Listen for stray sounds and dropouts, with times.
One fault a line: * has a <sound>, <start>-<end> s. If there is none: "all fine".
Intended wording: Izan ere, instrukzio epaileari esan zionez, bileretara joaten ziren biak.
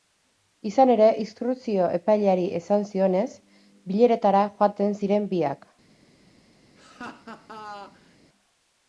* has a laugh, 6.8-8.2 s